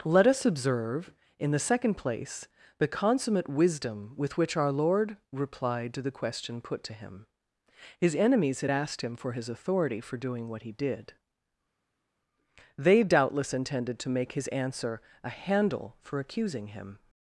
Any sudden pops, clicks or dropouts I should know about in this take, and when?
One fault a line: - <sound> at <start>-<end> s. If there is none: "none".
none